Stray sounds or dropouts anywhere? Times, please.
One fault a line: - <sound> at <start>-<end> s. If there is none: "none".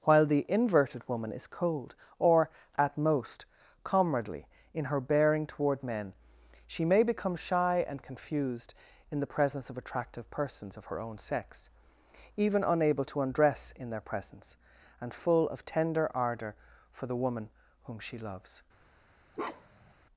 - bark at 19.3-19.9 s